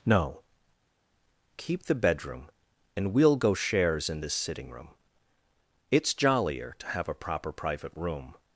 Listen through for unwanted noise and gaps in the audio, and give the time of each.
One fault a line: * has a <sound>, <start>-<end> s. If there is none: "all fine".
all fine